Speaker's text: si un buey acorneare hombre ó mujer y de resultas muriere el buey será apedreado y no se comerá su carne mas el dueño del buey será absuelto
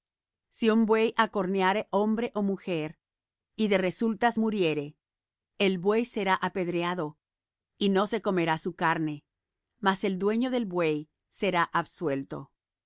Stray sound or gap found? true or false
false